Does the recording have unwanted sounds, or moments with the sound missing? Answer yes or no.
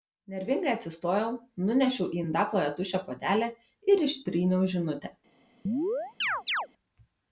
yes